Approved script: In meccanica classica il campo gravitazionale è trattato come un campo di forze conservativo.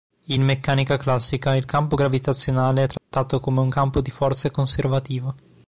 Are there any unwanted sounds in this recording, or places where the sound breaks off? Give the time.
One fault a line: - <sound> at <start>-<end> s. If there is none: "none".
- dropout at 3.0-3.1 s